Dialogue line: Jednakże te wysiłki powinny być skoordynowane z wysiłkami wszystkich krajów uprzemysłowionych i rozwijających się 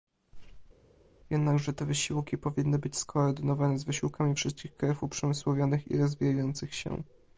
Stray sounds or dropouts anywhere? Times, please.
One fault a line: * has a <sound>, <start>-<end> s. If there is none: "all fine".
all fine